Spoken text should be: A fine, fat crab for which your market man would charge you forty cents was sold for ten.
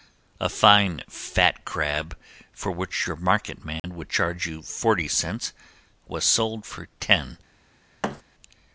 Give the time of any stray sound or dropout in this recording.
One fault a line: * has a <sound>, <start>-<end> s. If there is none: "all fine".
* has a dropout, 3.8-3.8 s
* has a thud, 8.0-8.2 s